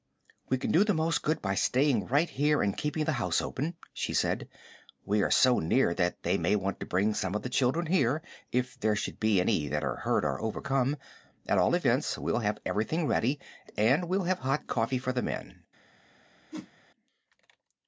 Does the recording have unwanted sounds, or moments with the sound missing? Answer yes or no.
yes